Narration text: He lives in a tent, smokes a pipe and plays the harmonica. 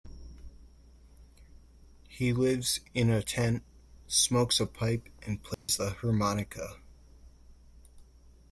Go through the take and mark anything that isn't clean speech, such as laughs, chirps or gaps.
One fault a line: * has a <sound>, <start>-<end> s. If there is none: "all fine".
* has a dropout, 5.5-5.7 s